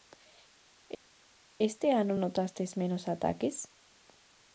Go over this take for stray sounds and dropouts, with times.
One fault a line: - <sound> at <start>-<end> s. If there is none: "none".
none